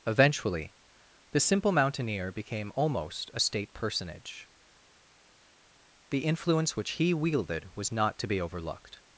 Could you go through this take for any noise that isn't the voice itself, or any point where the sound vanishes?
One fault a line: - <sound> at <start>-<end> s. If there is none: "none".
none